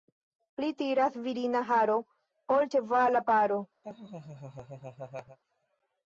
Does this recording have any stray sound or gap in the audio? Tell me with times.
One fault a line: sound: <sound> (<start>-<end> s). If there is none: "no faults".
sound: laugh (3.8-5.4 s)